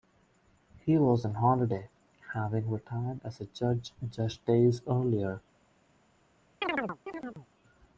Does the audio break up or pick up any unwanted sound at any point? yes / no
yes